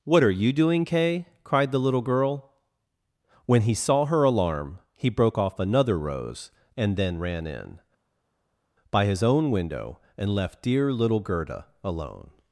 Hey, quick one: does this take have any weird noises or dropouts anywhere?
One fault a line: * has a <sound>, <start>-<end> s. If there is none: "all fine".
all fine